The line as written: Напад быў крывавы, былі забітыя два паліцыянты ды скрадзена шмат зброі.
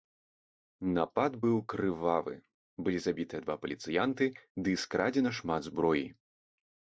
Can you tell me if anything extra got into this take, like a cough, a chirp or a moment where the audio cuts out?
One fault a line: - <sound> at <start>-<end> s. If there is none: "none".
none